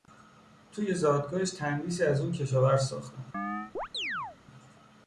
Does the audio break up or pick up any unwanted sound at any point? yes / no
yes